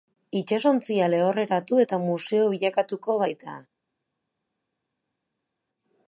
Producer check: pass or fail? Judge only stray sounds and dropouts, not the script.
pass